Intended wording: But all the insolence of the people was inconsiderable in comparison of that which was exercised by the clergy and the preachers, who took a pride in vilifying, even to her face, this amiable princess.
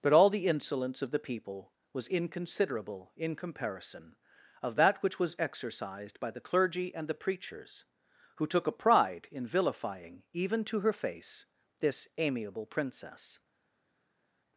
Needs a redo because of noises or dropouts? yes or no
no